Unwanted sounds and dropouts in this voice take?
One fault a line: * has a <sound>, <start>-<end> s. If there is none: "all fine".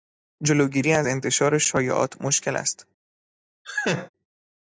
* has a laugh, 3.6-4.1 s